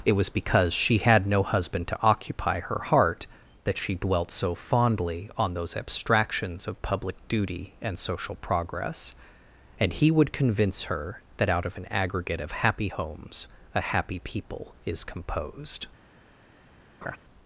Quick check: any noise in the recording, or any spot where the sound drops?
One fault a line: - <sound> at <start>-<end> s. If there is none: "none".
- laugh at 17.0-17.2 s